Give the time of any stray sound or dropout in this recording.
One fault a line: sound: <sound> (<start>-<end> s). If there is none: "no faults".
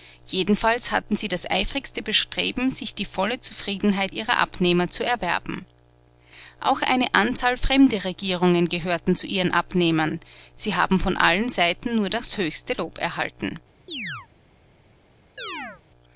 sound: chirp (13.9-14.3 s)
sound: chirp (15.4-15.8 s)